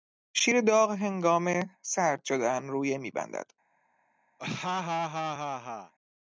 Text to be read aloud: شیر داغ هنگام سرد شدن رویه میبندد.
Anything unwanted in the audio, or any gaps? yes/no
yes